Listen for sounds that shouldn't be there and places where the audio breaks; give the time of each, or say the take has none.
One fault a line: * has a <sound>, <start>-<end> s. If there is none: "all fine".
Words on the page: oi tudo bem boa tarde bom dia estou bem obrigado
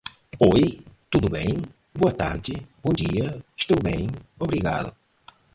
all fine